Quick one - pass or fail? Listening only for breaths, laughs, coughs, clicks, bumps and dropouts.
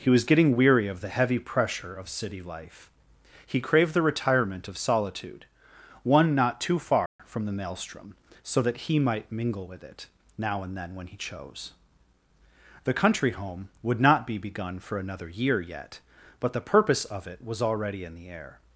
fail